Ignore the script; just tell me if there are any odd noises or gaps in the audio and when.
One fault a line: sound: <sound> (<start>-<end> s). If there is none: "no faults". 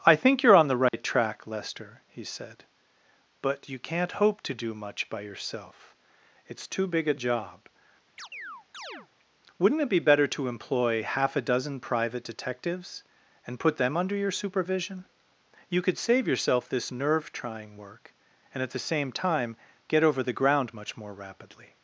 sound: dropout (0.9-0.9 s)
sound: chirp (8.2-9.1 s)